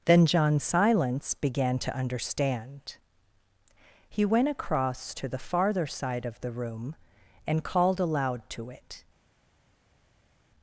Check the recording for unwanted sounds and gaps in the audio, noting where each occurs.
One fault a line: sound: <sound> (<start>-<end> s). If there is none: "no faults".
no faults